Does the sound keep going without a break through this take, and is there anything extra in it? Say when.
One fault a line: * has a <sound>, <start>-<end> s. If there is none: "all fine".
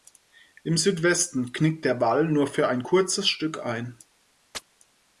* has a chirp, 4.5-4.6 s